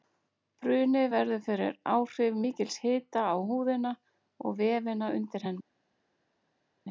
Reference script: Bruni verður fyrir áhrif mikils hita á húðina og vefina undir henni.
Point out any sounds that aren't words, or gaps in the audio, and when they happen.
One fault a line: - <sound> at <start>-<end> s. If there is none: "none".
none